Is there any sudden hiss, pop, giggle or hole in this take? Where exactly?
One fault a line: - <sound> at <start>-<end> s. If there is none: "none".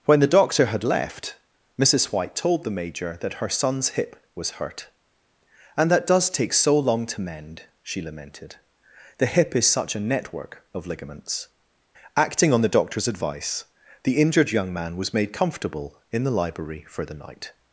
none